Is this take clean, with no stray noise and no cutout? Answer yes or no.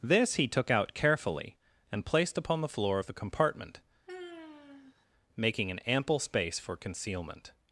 no